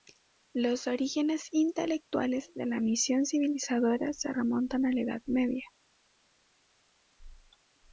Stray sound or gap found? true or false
false